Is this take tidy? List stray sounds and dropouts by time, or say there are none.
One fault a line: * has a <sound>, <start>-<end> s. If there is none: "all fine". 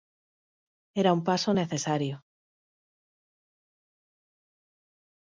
all fine